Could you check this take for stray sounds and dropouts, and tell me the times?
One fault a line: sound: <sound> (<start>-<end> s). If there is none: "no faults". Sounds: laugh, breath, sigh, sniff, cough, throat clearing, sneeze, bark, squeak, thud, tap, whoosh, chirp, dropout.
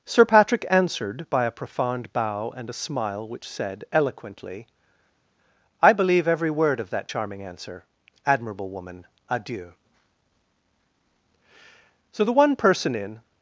no faults